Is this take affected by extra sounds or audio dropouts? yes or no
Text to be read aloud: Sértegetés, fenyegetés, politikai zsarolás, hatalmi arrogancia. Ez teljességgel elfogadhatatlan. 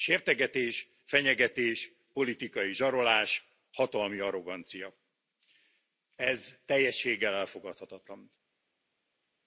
no